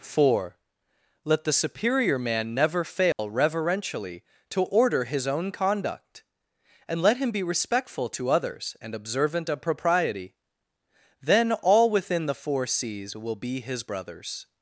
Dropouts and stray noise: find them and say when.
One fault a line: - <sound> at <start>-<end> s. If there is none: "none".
- dropout at 3.1-3.2 s